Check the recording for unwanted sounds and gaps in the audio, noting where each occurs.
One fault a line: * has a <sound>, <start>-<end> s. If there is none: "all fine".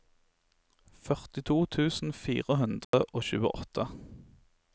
* has a dropout, 2.8-2.9 s